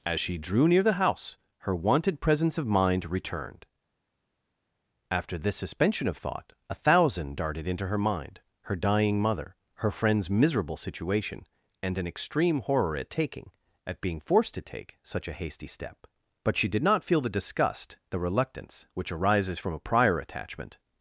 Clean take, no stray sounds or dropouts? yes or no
yes